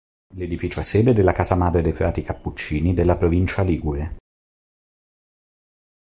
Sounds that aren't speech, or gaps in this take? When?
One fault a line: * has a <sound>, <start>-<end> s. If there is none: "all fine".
all fine